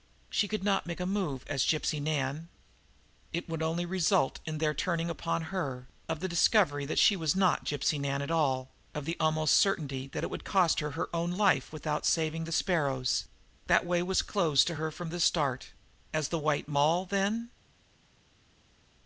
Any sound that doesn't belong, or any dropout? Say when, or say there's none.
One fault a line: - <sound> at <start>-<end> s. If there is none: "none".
none